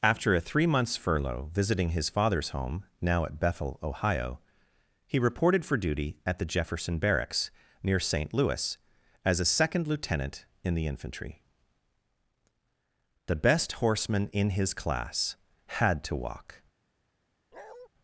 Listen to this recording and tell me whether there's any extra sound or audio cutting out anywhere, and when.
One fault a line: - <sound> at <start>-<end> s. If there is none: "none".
- bark at 17.5-17.9 s